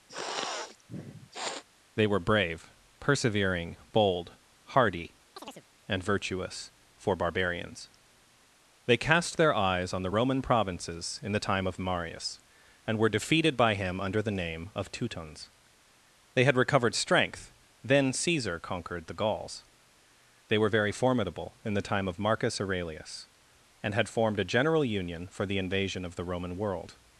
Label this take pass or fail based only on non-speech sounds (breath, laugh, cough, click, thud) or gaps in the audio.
fail